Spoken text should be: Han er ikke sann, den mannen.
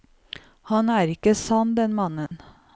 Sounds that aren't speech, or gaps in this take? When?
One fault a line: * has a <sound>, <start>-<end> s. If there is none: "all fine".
* has a dropout, 2.3-2.3 s